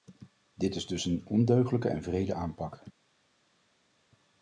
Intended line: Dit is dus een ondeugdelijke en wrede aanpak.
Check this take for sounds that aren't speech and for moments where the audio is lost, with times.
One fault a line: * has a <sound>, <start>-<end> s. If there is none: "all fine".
all fine